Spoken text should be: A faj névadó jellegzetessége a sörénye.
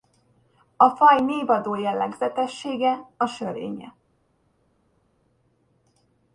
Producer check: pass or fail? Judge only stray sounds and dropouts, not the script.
pass